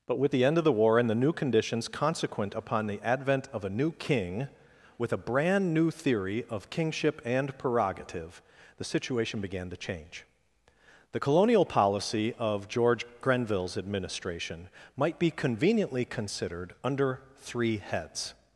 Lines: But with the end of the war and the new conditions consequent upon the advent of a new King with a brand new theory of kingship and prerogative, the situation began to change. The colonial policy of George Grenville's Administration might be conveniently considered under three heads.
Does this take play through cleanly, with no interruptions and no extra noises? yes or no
yes